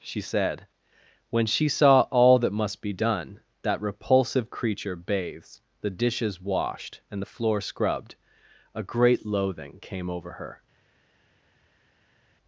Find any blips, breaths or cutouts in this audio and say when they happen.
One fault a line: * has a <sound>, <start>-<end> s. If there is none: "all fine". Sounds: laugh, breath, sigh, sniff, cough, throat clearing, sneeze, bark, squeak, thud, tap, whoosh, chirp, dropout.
all fine